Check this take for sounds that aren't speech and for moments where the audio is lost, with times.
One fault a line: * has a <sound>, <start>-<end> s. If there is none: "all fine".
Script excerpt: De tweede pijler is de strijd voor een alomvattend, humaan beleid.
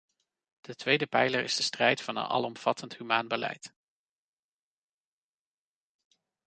all fine